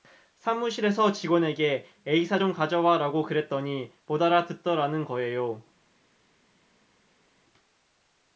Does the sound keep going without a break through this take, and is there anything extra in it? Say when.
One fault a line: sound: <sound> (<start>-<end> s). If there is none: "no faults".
no faults